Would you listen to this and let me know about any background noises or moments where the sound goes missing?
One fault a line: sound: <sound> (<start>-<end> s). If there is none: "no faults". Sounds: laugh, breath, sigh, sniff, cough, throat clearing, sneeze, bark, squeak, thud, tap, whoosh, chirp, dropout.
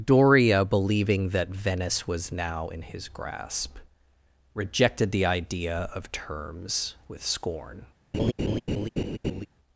sound: laugh (8.1-9.5 s)